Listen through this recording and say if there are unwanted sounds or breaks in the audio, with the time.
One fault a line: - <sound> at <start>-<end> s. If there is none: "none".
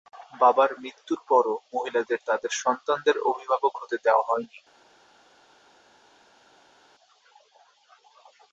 none